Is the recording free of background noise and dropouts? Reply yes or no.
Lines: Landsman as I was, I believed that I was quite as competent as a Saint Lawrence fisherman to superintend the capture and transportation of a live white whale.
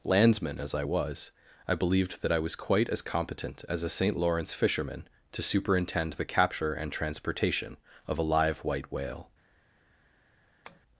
no